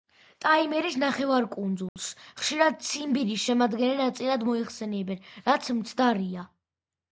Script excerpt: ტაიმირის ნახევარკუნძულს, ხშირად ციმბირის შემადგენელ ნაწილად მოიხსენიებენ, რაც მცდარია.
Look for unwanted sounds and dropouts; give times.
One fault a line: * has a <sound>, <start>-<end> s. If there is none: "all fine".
* has a dropout, 1.9-2.0 s